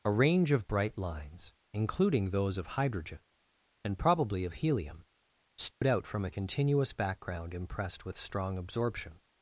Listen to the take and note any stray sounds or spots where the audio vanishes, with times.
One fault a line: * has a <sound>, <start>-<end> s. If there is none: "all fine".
* has a dropout, 5.7-5.8 s